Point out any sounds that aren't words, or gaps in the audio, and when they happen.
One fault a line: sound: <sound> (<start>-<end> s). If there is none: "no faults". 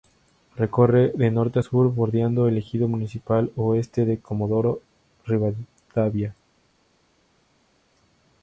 no faults